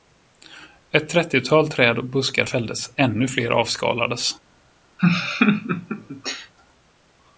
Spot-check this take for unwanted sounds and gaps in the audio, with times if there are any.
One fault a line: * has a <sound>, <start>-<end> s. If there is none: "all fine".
* has a laugh, 5.0-6.5 s